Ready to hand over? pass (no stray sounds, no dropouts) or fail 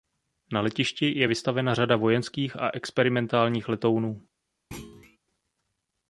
fail